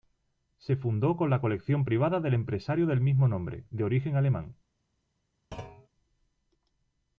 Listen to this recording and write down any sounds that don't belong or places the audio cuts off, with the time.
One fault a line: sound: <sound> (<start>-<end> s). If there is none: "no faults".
sound: thud (5.5-5.9 s)